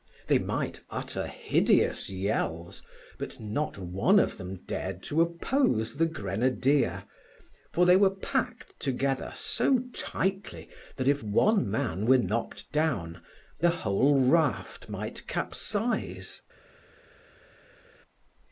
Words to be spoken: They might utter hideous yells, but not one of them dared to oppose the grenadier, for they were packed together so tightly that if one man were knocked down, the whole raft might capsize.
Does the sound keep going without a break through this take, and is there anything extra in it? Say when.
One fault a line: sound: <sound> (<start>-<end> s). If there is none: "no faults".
no faults